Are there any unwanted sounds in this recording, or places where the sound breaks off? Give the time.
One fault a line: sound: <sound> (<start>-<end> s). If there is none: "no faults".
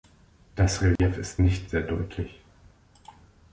sound: dropout (1.0-1.0 s)